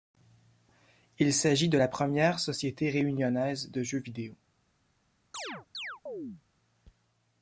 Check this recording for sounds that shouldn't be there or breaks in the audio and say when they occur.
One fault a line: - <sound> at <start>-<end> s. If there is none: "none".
- chirp at 5.3-6.4 s